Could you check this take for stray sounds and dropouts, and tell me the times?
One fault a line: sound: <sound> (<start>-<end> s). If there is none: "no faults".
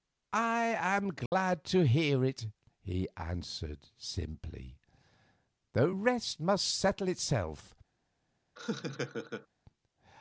sound: dropout (1.3-1.3 s)
sound: laugh (8.6-9.5 s)